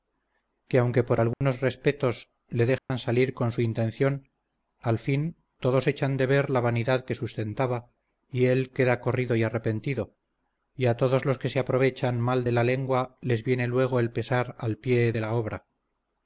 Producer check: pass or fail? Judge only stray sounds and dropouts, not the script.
fail